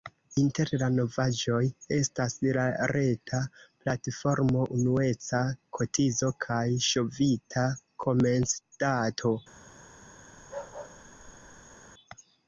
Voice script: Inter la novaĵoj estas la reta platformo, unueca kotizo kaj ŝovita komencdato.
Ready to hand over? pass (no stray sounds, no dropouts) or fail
fail